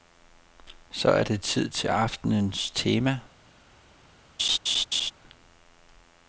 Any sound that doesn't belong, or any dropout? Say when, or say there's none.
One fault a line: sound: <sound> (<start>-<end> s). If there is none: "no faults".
sound: laugh (4.4-5.1 s)